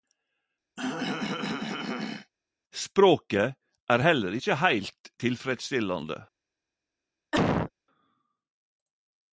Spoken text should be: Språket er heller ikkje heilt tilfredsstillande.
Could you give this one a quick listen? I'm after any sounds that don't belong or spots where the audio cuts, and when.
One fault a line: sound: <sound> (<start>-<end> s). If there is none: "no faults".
sound: throat clearing (0.8-2.3 s)
sound: cough (7.3-7.7 s)